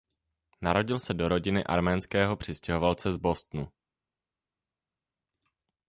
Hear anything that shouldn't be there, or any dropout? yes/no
no